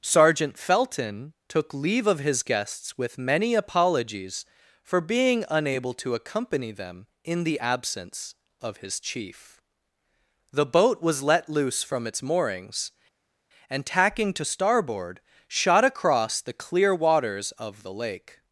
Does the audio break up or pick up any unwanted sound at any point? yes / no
no